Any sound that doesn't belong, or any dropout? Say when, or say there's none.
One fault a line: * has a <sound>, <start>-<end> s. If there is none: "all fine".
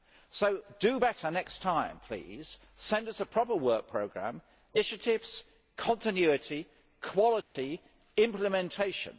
* has a dropout, 7.4-7.6 s